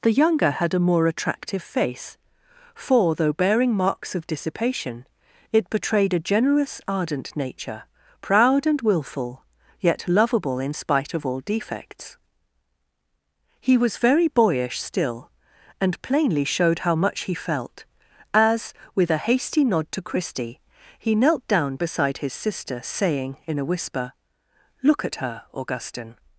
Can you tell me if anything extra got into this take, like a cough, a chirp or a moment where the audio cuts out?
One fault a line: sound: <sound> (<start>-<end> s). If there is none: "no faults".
no faults